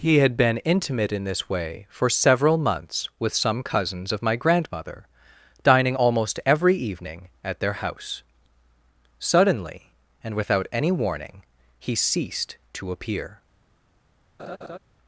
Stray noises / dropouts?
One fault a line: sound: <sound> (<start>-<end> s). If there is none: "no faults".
sound: laugh (14.4-14.8 s)